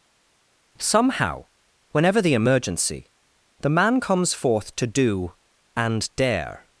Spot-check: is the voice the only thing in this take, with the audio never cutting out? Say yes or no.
yes